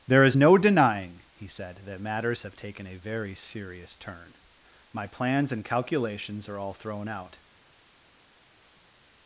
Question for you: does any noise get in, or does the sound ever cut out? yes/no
no